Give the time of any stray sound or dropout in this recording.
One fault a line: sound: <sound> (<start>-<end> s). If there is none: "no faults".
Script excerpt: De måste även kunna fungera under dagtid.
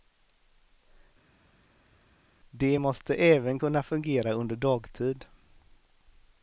no faults